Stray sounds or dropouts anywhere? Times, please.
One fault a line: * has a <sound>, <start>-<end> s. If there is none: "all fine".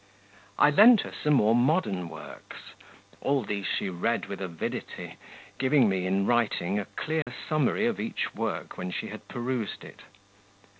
* has a dropout, 7.2-7.3 s